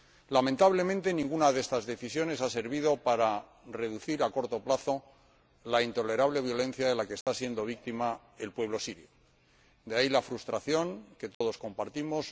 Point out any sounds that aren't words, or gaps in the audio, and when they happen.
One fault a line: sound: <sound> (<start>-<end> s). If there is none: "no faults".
sound: dropout (7.2-7.3 s)
sound: dropout (11.3-11.4 s)